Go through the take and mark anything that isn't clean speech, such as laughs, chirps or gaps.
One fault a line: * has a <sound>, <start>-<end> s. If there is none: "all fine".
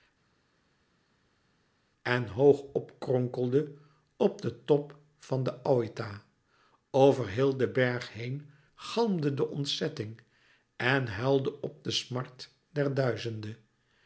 all fine